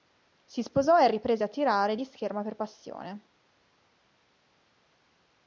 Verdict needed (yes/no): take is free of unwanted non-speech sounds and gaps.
yes